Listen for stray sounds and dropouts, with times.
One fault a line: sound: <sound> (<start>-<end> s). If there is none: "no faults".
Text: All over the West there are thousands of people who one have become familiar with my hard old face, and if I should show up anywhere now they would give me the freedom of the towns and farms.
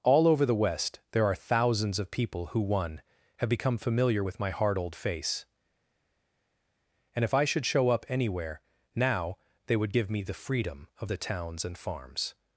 no faults